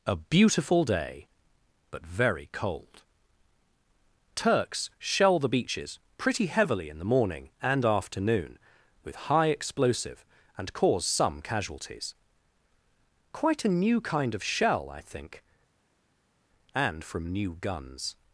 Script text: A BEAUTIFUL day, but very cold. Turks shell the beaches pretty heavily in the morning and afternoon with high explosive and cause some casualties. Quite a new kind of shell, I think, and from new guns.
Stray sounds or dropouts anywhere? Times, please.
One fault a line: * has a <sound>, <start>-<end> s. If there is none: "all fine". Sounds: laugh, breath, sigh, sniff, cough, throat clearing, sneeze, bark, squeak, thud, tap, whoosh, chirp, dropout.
all fine